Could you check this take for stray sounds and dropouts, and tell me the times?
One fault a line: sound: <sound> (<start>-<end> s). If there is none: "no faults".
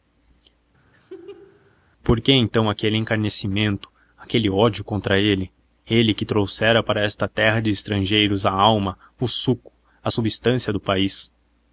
sound: laugh (0.9-1.8 s)